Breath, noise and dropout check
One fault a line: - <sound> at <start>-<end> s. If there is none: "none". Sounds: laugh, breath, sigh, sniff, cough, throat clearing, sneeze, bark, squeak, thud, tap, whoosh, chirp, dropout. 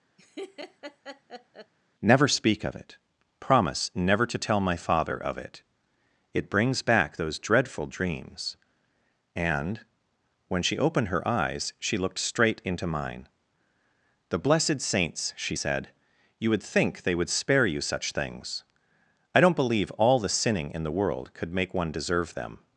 - laugh at 0.2-1.7 s